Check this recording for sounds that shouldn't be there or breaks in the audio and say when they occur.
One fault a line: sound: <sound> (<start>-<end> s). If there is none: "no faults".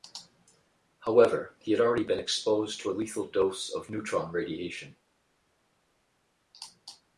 no faults